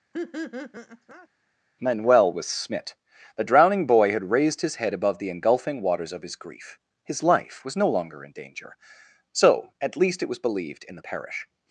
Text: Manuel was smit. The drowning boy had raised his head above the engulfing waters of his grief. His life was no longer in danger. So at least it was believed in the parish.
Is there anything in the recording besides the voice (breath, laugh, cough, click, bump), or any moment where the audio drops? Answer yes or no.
yes